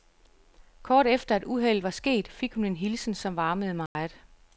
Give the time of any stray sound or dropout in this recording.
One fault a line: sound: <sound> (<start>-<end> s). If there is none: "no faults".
sound: dropout (3.9-4.0 s)